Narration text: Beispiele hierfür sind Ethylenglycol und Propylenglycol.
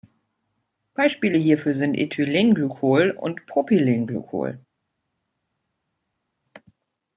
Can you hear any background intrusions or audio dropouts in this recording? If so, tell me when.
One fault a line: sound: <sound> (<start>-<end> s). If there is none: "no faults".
no faults